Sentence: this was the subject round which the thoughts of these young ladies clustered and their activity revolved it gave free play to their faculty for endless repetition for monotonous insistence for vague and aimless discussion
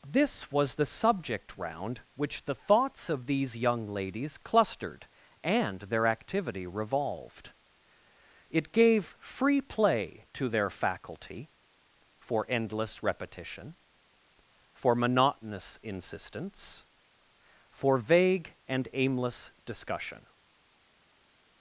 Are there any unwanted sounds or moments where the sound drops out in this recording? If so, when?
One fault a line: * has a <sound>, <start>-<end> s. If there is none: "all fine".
all fine